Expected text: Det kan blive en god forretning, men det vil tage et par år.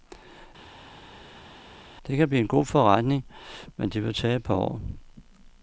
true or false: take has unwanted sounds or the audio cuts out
false